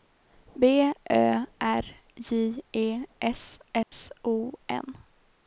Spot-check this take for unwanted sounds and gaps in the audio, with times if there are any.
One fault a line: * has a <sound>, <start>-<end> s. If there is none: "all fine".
* has a dropout, 3.8-3.9 s